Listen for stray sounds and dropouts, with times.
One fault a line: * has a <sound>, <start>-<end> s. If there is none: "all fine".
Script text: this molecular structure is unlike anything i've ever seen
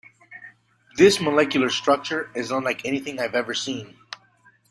all fine